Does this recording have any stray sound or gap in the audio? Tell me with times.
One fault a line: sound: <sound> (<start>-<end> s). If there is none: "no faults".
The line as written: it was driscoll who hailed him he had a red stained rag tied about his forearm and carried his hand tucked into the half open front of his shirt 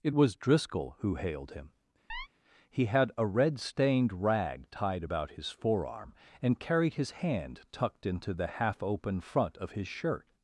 sound: chirp (2.1-2.3 s)